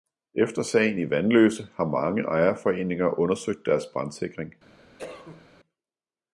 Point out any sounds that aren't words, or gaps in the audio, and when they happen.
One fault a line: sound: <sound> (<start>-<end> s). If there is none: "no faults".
sound: cough (5.0-5.5 s)